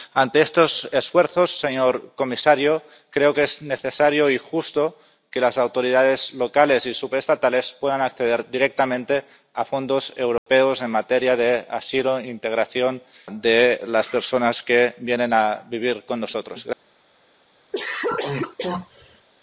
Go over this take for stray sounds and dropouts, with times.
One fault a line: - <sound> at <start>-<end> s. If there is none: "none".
- dropout at 10.4-10.5 s
- cough at 17.7-19.3 s